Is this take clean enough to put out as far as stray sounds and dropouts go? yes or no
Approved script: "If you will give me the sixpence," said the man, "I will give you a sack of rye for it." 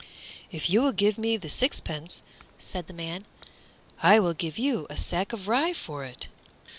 yes